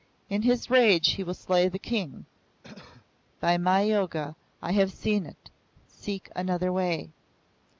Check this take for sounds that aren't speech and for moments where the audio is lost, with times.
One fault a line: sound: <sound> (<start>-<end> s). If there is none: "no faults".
sound: cough (2.6-3.1 s)